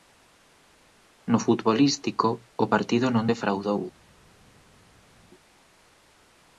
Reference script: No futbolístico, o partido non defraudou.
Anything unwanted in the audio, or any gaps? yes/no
no